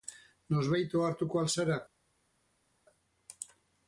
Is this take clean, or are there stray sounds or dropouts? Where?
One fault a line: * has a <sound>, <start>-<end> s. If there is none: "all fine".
all fine